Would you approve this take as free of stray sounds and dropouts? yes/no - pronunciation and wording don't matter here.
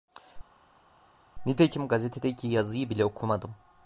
yes